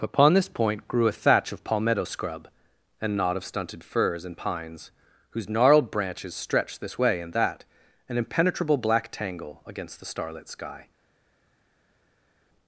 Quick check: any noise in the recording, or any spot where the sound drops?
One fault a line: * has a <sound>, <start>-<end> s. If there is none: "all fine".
all fine